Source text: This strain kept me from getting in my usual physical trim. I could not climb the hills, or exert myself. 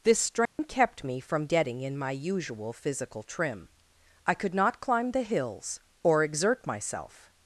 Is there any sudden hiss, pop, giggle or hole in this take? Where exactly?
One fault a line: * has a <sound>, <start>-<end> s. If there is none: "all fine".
* has a dropout, 0.5-0.6 s